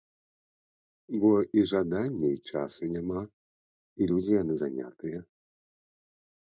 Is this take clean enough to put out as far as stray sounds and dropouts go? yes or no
yes